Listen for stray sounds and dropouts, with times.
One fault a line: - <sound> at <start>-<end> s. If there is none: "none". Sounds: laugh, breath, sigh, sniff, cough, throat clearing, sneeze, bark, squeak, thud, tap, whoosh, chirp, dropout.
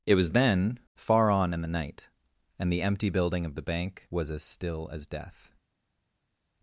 none